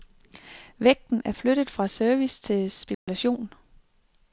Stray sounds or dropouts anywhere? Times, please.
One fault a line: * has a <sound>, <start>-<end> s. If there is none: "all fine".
* has a dropout, 2.9-3.1 s